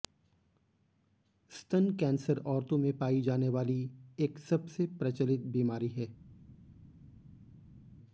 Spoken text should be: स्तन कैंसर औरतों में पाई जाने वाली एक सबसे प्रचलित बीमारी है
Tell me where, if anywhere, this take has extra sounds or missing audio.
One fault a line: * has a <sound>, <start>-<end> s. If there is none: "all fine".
all fine